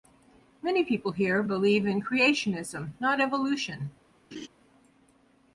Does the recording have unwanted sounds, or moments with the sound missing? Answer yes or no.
yes